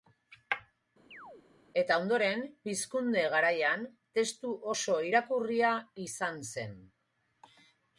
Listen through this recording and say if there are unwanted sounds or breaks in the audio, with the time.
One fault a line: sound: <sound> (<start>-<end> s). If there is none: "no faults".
sound: chirp (1.1-1.5 s)